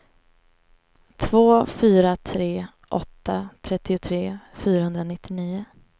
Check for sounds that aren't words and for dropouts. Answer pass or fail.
pass